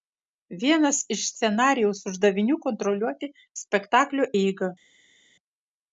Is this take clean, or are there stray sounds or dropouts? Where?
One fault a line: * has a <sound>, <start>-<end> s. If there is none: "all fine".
all fine